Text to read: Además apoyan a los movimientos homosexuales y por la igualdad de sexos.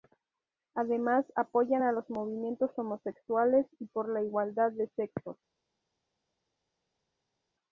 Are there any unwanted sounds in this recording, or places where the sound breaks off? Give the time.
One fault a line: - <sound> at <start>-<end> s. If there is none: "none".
none